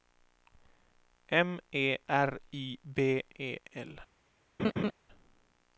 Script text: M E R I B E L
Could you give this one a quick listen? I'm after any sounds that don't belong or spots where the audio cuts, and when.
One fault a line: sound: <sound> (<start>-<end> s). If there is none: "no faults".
sound: laugh (4.6-4.9 s)